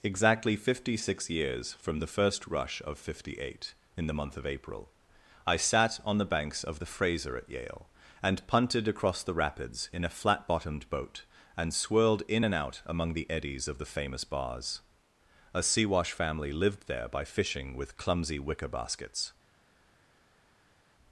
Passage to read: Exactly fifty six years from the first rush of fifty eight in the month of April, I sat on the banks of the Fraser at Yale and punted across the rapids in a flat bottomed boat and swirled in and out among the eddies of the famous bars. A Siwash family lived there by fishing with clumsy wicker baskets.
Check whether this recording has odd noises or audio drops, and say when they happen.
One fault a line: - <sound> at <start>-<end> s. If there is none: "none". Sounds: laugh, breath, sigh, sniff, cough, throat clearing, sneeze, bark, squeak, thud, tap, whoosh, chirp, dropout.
none